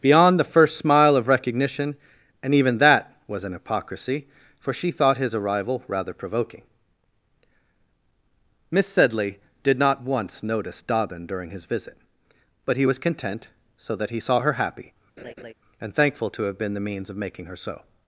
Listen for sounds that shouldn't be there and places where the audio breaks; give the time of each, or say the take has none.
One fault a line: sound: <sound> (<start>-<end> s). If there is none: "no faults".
sound: laugh (15.2-15.5 s)